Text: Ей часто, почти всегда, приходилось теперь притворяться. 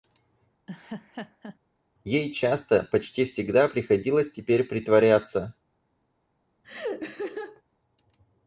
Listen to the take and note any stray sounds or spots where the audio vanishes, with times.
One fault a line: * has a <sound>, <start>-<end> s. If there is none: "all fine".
* has a laugh, 0.7-1.6 s
* has a laugh, 6.6-7.6 s